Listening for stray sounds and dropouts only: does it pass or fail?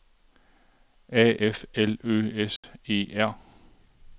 fail